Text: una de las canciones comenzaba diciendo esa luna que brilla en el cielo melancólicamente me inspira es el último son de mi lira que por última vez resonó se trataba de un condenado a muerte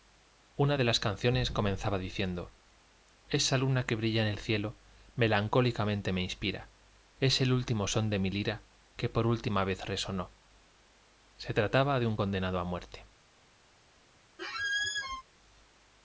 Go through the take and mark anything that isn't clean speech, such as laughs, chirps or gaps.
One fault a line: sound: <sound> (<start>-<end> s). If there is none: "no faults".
sound: squeak (14.4-15.2 s)